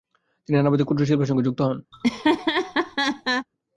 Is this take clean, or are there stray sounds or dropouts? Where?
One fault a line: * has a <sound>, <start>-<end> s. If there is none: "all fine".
* has a laugh, 1.9-3.5 s